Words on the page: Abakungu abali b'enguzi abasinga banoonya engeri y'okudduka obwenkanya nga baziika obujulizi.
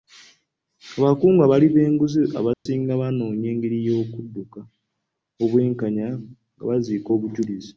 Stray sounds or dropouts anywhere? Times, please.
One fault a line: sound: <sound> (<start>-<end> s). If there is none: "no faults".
sound: dropout (2.5-2.7 s)